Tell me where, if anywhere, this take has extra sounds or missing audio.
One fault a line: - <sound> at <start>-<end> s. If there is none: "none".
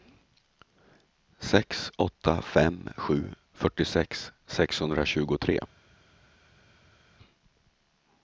none